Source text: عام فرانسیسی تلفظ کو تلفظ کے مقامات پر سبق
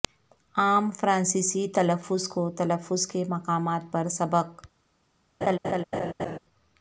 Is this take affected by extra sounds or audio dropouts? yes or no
yes